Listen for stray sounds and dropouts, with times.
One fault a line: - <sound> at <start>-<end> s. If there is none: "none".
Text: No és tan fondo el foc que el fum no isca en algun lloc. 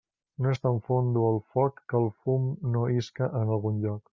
none